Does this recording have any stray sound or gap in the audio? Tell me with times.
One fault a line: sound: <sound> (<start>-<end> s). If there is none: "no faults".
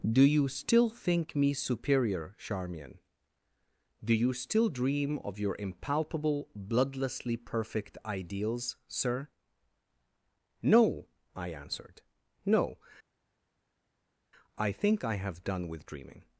no faults